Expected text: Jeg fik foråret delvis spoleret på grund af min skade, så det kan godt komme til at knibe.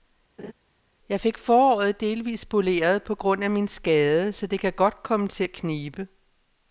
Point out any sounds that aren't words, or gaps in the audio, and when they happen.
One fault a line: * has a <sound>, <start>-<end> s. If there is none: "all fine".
* has a laugh, 0.4-0.5 s